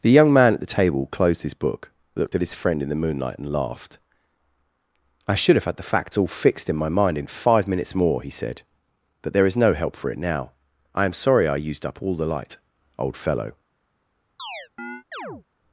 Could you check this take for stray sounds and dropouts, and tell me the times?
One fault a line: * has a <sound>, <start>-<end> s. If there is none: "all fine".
* has a chirp, 14.4-15.4 s